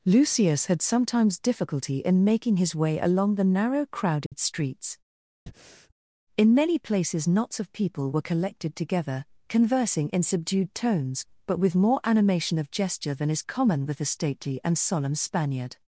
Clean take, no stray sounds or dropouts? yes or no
no